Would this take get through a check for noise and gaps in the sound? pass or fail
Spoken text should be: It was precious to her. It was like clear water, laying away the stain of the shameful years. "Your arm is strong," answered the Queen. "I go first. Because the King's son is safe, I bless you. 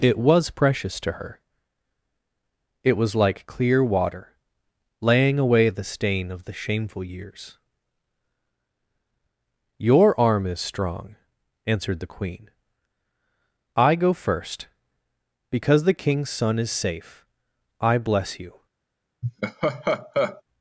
fail